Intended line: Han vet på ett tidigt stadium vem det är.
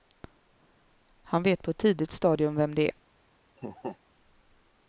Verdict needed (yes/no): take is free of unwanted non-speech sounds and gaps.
no